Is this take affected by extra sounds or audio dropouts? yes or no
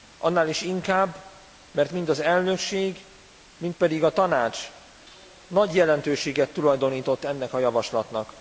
no